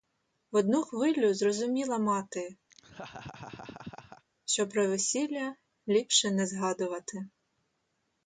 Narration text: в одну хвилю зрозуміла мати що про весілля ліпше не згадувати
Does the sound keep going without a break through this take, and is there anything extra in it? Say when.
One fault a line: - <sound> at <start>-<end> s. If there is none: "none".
- laugh at 2.7-4.2 s